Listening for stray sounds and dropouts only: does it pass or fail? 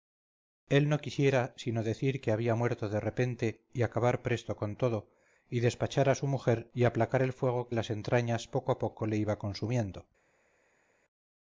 pass